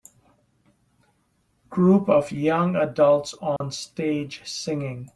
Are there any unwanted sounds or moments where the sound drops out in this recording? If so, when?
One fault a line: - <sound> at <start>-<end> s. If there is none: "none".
- dropout at 3.6-3.6 s